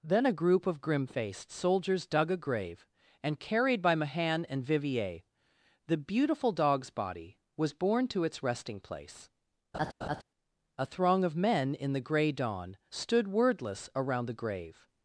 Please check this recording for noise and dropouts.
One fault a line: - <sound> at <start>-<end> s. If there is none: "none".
- laugh at 9.7-10.2 s